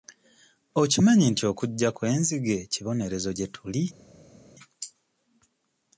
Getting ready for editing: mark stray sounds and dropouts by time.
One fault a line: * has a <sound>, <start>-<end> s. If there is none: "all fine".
all fine